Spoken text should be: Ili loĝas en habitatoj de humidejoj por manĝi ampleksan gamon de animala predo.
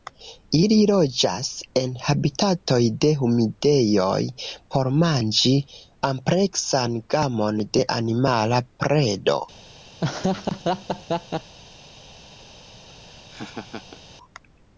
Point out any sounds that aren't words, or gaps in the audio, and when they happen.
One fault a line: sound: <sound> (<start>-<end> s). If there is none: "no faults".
sound: laugh (10.0-11.5 s)
sound: laugh (12.9-14.0 s)